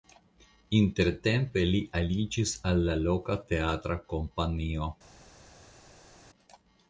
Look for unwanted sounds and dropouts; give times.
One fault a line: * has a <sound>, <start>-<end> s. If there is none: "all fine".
all fine